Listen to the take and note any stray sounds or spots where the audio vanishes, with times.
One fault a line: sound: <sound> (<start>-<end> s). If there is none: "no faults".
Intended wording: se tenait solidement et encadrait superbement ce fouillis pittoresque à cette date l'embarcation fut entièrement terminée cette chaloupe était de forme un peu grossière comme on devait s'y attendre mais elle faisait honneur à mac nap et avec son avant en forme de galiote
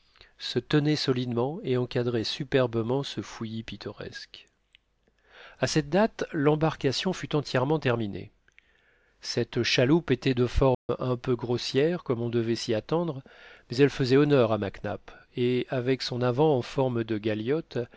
sound: dropout (10.7-10.9 s)